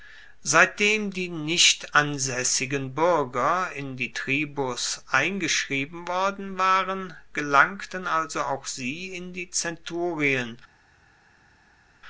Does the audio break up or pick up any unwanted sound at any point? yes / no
no